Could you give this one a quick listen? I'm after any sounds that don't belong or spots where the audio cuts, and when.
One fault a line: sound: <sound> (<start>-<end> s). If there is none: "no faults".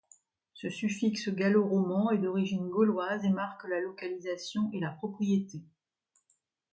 no faults